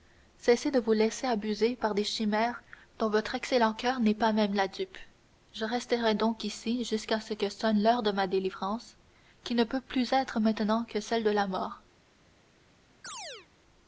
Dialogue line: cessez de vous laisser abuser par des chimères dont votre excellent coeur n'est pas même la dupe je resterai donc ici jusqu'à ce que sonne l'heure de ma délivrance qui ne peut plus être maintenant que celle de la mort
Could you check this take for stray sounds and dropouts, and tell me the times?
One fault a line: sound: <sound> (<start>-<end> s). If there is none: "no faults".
sound: chirp (13.0-13.5 s)